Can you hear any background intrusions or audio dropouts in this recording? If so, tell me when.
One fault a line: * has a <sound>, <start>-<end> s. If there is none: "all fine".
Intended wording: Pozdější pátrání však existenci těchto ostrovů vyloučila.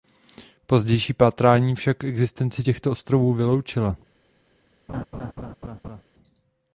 * has a laugh, 4.9-6.0 s